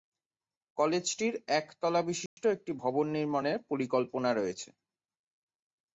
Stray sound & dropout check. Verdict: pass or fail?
fail